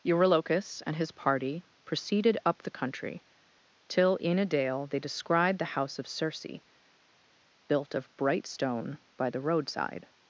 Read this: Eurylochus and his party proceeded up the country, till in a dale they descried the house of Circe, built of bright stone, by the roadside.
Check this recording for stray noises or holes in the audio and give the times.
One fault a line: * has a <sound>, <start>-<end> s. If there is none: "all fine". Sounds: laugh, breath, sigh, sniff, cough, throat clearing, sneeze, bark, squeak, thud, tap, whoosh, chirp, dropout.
all fine